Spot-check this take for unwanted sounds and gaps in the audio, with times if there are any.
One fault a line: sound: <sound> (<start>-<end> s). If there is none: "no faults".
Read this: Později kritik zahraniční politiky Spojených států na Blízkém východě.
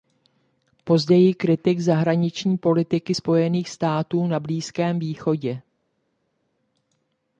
no faults